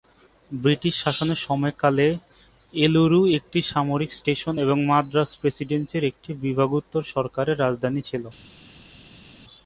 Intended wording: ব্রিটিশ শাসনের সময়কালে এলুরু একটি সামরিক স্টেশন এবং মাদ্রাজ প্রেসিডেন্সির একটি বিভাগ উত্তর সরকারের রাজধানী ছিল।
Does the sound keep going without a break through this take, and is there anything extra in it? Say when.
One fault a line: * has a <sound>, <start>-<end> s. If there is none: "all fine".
all fine